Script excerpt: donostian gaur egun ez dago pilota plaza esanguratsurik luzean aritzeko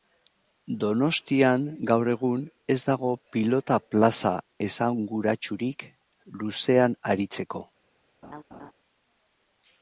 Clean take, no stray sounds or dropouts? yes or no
no